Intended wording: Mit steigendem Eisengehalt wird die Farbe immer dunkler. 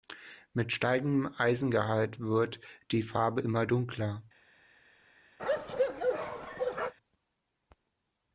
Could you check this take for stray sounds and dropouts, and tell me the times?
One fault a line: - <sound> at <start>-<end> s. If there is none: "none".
- bark at 5.4-6.9 s